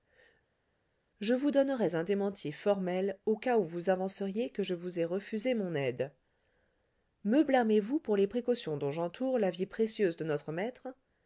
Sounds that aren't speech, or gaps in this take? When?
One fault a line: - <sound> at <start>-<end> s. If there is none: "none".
none